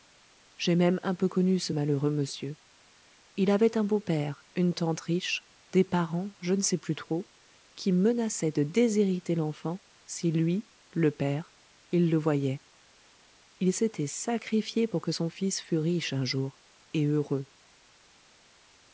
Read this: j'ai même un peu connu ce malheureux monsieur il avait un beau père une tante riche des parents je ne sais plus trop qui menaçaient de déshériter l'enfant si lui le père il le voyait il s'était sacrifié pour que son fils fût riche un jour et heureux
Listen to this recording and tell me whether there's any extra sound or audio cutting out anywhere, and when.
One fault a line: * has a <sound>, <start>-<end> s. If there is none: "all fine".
all fine